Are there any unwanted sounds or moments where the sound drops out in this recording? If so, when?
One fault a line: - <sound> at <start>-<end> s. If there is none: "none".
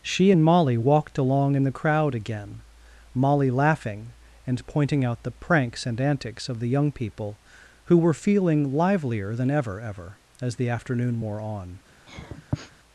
- sniff at 12.1-12.7 s